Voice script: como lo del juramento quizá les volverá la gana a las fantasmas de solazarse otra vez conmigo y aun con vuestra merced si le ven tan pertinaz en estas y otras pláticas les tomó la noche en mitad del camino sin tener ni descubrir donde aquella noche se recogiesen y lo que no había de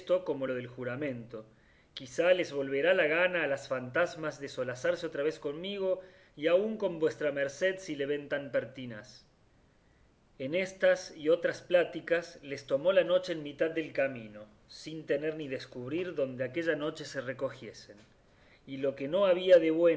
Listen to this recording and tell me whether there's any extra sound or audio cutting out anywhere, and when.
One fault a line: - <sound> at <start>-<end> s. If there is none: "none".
none